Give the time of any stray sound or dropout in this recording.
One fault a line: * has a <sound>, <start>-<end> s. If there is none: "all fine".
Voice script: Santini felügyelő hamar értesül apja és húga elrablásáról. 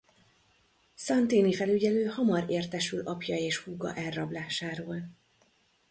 all fine